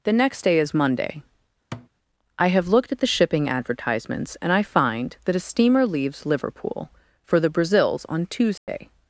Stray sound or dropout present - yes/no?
yes